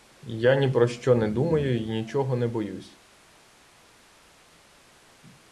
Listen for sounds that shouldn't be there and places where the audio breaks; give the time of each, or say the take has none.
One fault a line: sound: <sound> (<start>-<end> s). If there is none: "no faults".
no faults